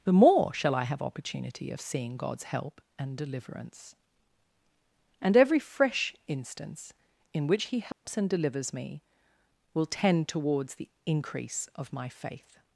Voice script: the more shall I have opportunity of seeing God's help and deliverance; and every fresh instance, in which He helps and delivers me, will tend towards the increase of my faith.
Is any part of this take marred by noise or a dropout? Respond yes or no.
yes